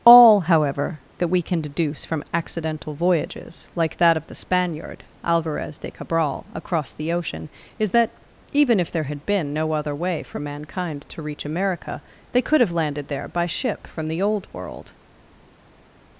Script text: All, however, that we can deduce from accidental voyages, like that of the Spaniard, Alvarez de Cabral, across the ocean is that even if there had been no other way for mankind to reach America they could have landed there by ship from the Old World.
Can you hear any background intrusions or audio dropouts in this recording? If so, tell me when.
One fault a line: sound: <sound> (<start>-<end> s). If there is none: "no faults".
no faults